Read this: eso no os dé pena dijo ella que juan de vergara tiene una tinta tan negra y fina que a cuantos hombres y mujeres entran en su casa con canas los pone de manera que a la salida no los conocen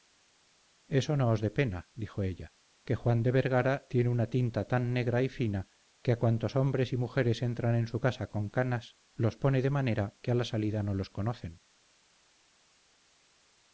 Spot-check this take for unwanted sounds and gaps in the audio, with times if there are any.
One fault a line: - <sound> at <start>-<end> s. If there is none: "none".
none